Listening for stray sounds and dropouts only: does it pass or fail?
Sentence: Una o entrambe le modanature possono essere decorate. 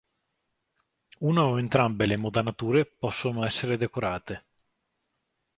pass